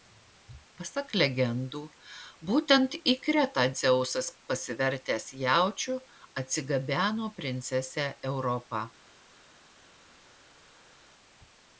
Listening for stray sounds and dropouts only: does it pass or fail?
pass